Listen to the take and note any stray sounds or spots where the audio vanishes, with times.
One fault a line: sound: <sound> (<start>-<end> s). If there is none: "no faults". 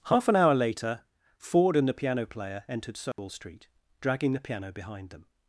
sound: dropout (3.1-3.2 s)